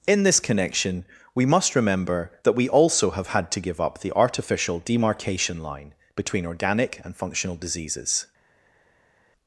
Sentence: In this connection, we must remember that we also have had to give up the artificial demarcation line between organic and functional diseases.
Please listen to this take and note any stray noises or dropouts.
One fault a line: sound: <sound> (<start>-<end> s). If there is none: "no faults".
no faults